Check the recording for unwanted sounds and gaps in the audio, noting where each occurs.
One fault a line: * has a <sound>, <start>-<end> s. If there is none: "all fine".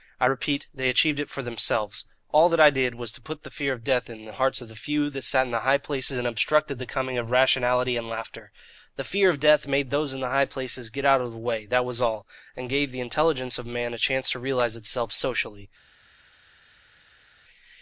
all fine